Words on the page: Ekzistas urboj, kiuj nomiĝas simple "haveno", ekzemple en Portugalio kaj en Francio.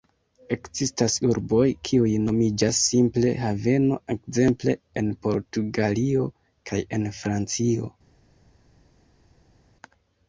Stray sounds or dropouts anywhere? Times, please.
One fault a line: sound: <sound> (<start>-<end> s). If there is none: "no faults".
no faults